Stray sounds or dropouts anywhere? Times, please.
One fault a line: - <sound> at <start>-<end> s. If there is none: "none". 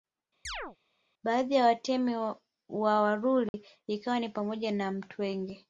- chirp at 0.4-0.8 s
- dropout at 3.5-3.5 s